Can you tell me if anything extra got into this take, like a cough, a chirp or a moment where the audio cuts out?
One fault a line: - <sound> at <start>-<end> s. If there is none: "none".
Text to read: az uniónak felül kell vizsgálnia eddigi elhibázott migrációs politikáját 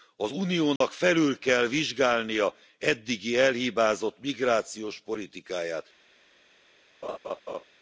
- dropout at 0.8-0.8 s
- laugh at 7.0-7.6 s